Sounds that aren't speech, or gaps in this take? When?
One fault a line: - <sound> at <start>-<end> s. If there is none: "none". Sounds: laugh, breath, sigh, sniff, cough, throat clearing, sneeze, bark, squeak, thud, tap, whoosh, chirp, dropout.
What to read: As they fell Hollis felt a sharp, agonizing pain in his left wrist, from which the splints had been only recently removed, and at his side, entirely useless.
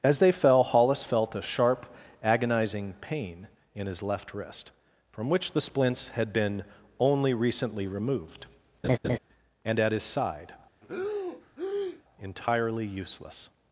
- laugh at 8.8-9.2 s
- breath at 10.8-12.0 s